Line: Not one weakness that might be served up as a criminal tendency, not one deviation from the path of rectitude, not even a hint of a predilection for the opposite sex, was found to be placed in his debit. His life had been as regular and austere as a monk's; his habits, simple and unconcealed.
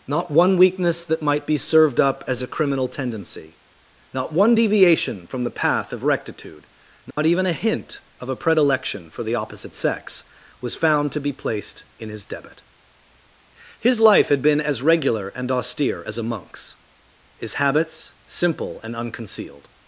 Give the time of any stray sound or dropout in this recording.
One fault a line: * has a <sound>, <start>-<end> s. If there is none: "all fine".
* has a dropout, 7.1-7.2 s